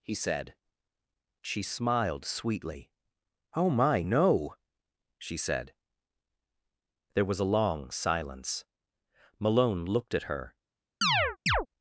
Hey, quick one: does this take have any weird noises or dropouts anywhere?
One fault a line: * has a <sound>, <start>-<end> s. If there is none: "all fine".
* has a chirp, 11.0-11.7 s